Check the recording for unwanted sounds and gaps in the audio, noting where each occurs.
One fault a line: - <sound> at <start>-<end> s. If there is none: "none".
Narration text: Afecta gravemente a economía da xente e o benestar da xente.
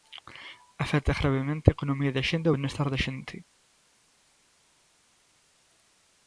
none